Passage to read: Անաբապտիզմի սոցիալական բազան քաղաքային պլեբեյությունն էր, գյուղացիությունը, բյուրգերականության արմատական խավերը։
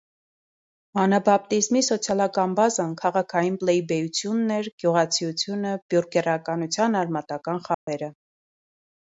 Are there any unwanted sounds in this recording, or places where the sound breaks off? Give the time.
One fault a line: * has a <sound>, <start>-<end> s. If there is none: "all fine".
* has a dropout, 7.7-7.9 s